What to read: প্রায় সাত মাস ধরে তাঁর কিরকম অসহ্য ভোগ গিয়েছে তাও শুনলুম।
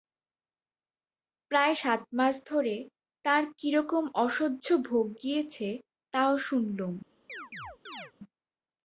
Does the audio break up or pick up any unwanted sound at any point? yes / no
yes